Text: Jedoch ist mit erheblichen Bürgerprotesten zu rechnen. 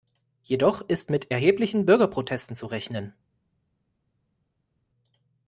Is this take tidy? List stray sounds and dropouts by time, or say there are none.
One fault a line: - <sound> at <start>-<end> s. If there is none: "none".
none